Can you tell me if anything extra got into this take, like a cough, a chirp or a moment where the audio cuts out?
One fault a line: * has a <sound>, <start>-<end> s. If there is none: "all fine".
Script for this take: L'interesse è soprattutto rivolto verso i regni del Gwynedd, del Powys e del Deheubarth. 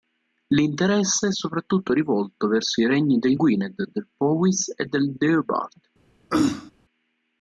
* has a throat clearing, 6.3-6.7 s